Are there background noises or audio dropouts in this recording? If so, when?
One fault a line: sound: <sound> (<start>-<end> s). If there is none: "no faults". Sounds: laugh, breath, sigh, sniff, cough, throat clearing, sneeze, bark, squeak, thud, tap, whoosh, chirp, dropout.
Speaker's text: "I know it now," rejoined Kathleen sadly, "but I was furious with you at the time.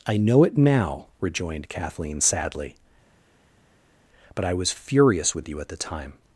no faults